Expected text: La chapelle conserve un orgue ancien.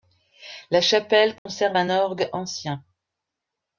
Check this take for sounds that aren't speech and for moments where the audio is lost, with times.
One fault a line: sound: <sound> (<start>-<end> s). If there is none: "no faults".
sound: dropout (1.4-1.5 s)